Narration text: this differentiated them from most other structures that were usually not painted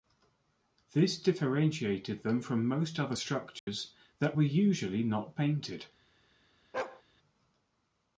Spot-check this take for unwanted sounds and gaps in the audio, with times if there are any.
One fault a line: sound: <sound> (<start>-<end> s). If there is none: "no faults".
sound: dropout (3.6-3.7 s)
sound: bark (6.7-7.0 s)